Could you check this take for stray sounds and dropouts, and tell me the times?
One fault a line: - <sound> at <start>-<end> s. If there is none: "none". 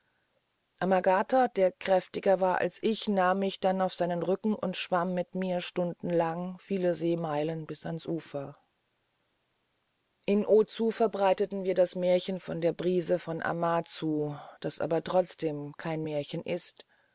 none